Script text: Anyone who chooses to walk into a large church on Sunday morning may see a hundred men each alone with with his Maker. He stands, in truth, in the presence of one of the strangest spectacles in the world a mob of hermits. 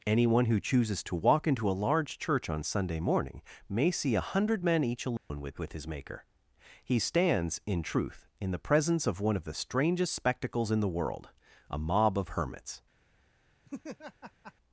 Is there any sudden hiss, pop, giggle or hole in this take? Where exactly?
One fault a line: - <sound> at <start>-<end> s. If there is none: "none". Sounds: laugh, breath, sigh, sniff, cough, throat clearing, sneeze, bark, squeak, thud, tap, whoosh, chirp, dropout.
- dropout at 5.2-5.3 s
- laugh at 13.6-14.5 s